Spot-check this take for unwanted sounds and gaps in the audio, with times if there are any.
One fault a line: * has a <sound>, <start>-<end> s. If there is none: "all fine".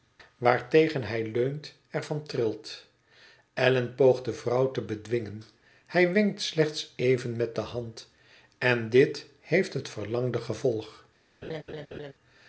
* has a laugh, 11.4-12.1 s